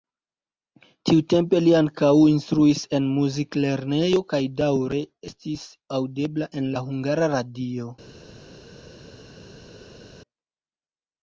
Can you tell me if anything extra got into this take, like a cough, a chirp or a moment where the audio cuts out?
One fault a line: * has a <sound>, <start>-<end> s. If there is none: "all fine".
all fine